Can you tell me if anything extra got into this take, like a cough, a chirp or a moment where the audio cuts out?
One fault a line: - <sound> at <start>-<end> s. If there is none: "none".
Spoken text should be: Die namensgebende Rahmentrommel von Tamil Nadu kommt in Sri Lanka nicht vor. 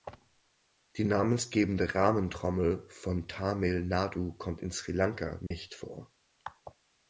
- dropout at 5.5-5.5 s